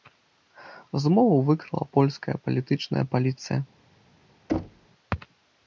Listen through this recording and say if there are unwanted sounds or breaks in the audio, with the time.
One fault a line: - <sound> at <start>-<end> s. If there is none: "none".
- thud at 4.5-4.9 s